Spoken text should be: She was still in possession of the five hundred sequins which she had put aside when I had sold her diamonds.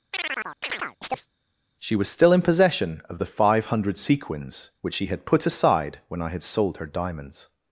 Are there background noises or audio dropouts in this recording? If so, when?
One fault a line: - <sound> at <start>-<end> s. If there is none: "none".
- chirp at 0.1-1.3 s